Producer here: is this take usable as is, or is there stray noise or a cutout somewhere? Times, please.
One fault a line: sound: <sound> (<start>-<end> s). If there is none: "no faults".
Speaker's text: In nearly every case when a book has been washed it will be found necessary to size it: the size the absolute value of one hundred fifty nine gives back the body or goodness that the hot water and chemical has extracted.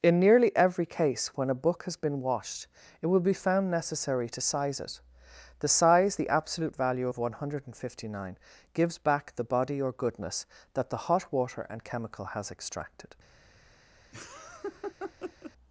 sound: laugh (14.1-15.5 s)